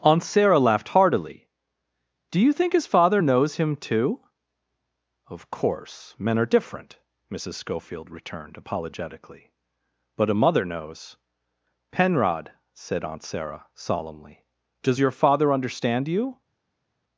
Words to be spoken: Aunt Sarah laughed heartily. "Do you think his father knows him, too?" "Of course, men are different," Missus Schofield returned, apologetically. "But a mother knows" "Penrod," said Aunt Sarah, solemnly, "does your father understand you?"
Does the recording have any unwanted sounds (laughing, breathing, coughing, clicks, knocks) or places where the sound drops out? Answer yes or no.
no